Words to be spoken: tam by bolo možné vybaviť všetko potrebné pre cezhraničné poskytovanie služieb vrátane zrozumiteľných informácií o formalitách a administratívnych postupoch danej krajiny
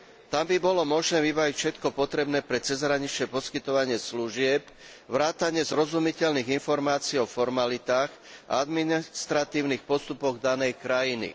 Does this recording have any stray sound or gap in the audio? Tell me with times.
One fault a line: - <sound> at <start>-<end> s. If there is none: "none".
none